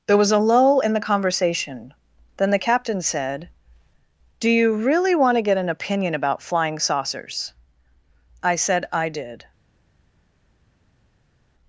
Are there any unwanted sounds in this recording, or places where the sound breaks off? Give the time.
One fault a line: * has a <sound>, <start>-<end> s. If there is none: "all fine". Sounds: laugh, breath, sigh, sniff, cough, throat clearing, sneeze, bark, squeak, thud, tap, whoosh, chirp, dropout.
all fine